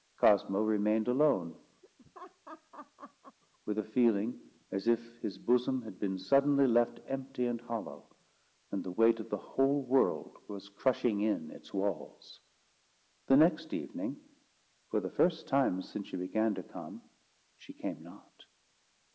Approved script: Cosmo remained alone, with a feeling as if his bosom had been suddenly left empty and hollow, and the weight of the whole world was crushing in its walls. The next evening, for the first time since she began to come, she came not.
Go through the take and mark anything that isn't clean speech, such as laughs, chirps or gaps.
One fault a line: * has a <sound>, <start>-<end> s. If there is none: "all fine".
* has a laugh, 1.8-3.4 s